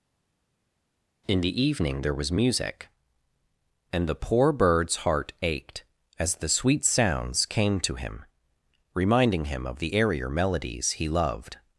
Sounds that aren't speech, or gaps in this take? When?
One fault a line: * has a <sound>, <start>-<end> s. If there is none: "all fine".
all fine